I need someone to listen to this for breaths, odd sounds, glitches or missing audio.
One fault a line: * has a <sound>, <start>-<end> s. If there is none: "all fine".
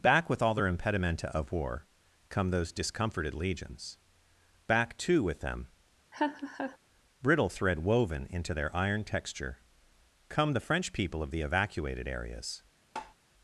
* has a laugh, 6.1-6.8 s
* has a tap, 13.0-13.2 s